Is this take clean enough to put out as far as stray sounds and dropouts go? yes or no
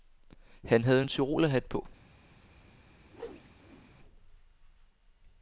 no